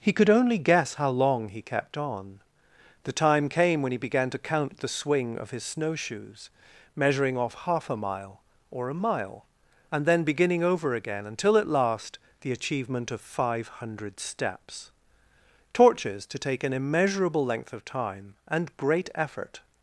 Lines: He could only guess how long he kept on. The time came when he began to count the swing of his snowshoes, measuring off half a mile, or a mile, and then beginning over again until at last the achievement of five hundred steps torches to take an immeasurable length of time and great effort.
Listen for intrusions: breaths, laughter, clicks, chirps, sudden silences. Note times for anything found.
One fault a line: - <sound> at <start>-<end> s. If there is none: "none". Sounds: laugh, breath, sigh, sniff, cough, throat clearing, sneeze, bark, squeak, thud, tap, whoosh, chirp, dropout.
none